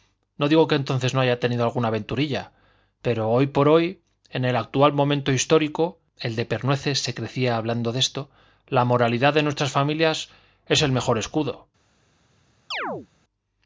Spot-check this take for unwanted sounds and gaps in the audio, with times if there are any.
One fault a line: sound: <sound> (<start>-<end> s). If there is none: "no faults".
sound: chirp (12.7-13.1 s)